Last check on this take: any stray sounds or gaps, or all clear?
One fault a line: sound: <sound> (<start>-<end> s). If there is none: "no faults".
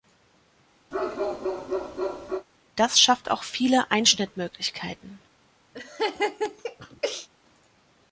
sound: bark (0.9-2.5 s)
sound: laugh (5.7-7.3 s)